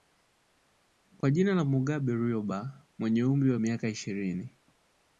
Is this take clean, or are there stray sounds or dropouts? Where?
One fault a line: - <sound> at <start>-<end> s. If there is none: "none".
- dropout at 1.2-1.2 s